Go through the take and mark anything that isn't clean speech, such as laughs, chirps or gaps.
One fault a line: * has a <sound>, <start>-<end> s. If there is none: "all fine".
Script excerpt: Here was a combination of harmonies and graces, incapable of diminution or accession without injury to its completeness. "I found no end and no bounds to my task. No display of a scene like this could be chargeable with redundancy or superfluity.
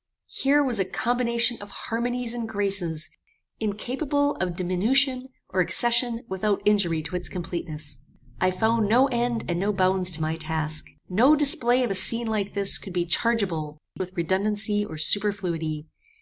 all fine